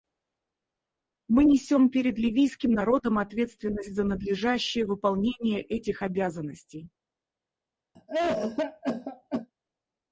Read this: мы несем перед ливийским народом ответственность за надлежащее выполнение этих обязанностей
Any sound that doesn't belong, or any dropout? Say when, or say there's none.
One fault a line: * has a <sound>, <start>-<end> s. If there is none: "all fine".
* has a cough, 7.9-9.5 s